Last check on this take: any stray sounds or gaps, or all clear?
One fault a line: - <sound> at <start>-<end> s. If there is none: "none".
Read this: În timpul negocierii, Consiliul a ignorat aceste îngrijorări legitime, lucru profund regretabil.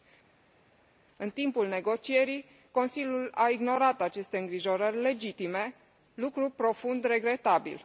none